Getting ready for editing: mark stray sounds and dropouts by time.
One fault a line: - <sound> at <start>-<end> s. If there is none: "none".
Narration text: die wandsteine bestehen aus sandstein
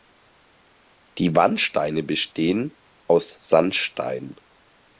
none